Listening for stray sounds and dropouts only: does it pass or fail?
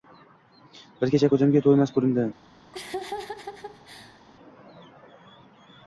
fail